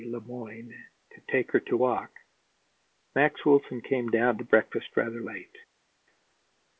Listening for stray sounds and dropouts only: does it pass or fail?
pass